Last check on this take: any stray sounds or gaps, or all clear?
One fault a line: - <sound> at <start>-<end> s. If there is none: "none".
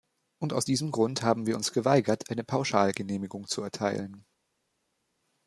none